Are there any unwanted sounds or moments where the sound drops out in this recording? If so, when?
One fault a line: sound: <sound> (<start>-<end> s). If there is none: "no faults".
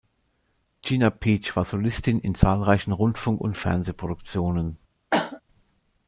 sound: cough (5.1-5.4 s)